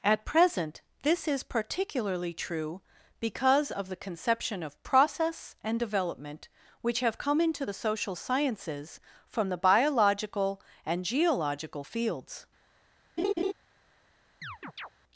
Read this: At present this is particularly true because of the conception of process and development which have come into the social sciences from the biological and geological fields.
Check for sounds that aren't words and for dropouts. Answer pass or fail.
fail